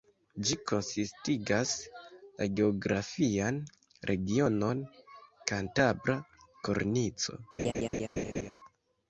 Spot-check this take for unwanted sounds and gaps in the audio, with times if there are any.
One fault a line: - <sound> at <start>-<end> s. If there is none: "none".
- laugh at 7.6-8.5 s